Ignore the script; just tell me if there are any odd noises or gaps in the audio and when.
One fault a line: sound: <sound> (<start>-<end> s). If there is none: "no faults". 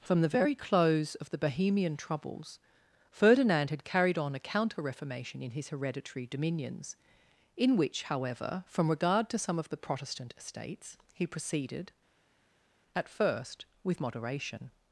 no faults